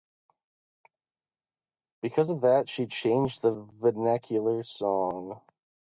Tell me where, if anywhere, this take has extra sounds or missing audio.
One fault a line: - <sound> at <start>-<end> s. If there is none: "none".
none